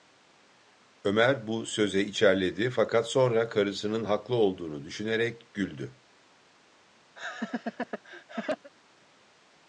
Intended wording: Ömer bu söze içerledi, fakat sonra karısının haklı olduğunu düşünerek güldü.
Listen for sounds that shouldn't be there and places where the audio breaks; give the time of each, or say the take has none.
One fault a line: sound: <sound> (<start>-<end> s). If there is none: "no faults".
sound: laugh (7.2-8.7 s)